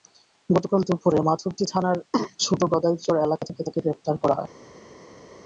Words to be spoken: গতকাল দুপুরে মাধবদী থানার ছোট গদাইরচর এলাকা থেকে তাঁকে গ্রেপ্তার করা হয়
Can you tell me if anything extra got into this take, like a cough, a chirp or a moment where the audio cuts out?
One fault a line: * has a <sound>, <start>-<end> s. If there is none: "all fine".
all fine